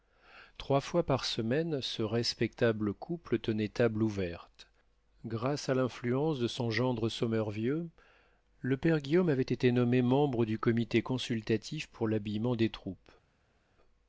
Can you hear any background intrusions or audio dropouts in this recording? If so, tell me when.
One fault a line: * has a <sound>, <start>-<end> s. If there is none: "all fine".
all fine